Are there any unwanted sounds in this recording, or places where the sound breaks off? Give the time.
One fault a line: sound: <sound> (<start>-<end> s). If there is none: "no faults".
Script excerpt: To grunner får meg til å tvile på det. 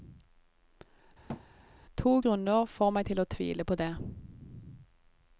sound: thud (1.3-1.5 s)